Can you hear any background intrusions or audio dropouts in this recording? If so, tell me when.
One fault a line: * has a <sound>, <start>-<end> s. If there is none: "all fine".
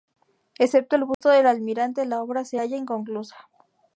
* has a dropout, 1.1-1.2 s